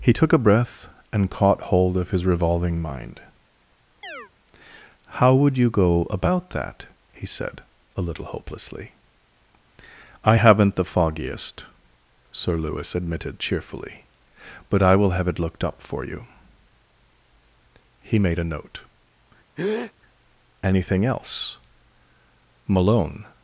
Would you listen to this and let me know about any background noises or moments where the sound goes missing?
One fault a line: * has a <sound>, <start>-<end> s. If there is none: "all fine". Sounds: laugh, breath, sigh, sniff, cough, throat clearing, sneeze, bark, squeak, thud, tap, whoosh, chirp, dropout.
* has a chirp, 4.0-4.3 s
* has a breath, 19.6-19.9 s